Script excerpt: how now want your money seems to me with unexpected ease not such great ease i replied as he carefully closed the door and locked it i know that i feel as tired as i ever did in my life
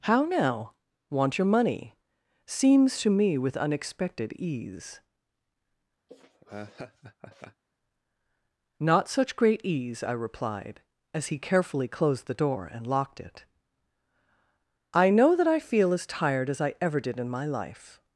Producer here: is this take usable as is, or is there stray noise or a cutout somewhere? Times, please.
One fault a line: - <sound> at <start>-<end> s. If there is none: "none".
- laugh at 6.1-7.6 s